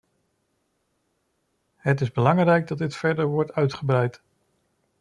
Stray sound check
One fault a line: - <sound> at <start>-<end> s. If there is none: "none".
none